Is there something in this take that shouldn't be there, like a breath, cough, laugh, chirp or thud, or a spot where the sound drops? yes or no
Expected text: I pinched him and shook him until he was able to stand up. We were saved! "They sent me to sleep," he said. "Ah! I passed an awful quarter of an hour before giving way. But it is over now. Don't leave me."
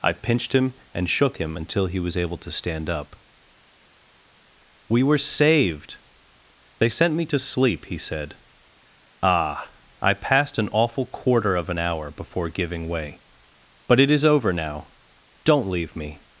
no